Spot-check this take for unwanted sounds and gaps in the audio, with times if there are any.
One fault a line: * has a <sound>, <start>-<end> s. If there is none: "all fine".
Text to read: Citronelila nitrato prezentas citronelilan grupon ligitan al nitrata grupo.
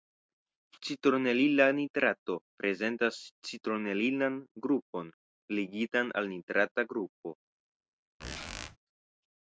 * has a squeak, 8.2-8.8 s